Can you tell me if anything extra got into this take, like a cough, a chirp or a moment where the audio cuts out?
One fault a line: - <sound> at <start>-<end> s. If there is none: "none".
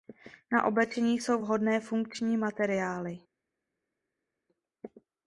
none